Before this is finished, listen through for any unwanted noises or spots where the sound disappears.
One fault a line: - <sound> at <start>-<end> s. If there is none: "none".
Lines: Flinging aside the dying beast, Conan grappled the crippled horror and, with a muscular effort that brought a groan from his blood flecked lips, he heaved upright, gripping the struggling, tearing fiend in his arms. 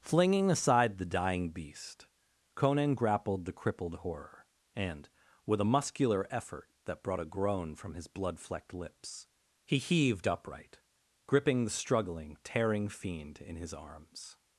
none